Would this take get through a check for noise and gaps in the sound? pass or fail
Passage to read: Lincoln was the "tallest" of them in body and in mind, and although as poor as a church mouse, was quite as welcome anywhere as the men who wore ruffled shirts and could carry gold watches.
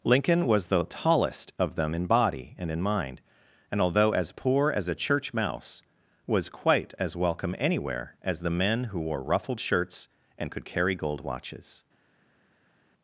pass